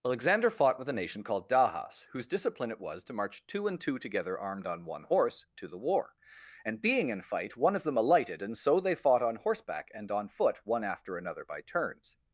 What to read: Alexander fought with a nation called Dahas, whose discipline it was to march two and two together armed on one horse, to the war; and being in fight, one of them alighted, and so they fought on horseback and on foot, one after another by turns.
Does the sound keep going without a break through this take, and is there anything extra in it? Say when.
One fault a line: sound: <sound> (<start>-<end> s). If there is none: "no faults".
no faults